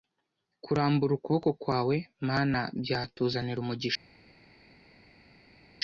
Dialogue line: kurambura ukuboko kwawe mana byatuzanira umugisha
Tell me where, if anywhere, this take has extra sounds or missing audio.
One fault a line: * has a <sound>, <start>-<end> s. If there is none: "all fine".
all fine